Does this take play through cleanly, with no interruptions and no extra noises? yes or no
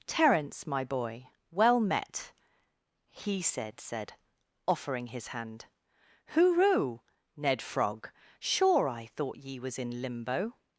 yes